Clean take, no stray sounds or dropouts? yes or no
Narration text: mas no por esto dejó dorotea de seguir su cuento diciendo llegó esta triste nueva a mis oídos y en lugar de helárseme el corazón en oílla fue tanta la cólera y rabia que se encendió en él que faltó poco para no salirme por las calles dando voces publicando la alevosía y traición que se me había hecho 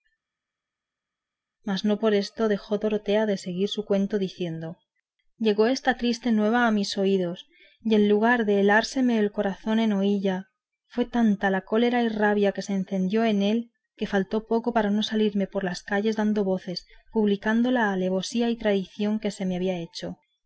yes